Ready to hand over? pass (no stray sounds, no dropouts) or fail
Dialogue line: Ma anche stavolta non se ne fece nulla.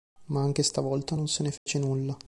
fail